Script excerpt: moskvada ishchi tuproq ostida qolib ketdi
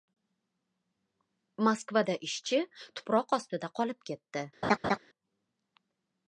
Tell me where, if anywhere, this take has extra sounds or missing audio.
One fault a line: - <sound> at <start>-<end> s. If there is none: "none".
- laugh at 4.6-5.0 s